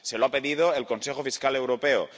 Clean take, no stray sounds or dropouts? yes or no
yes